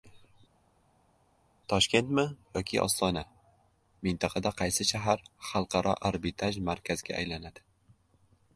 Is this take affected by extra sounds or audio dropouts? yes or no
no